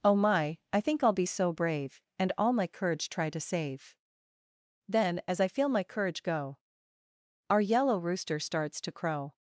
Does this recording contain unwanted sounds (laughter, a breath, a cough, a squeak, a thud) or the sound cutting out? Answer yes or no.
no